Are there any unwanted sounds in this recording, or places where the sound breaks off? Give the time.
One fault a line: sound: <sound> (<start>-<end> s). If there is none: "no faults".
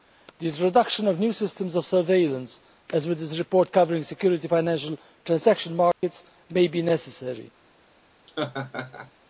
sound: dropout (5.9-6.0 s)
sound: laugh (8.3-9.1 s)